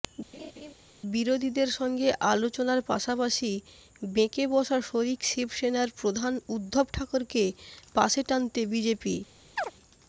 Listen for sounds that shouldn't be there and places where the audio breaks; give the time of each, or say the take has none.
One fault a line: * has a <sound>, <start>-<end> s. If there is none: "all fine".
* has a laugh, 0.3-0.7 s
* has a chirp, 9.6-9.7 s